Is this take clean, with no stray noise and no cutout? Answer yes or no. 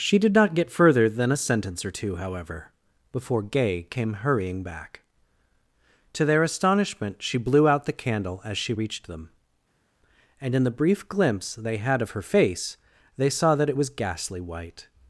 yes